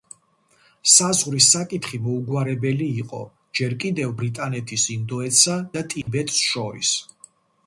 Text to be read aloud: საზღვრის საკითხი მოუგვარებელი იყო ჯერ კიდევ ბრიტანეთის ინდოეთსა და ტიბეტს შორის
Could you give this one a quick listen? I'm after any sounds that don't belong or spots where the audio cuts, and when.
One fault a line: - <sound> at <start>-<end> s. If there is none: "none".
- dropout at 6.0-6.1 s